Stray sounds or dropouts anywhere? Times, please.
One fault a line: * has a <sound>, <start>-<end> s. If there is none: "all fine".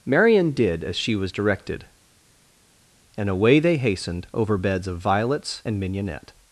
all fine